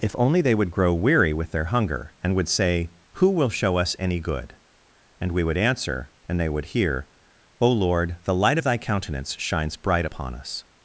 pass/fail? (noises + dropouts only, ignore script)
pass